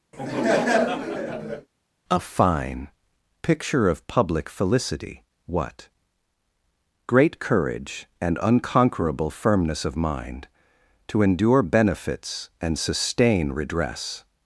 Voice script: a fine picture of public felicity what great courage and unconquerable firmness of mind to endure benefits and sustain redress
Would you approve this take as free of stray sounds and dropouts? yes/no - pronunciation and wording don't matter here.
no